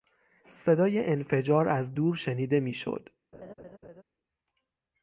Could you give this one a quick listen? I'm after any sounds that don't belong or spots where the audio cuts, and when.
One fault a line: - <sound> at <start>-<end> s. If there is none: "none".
- laugh at 3.3-4.0 s